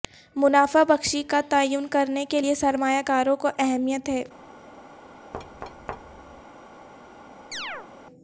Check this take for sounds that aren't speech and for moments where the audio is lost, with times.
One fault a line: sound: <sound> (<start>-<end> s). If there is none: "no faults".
sound: thud (5.3-6.4 s)
sound: chirp (7.5-7.9 s)